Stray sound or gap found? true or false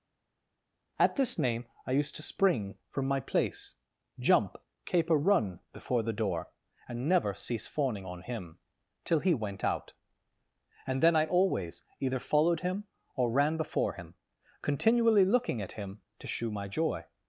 false